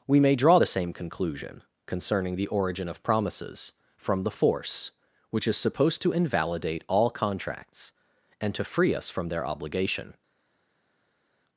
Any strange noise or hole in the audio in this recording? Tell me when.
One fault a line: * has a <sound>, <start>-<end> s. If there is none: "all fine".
all fine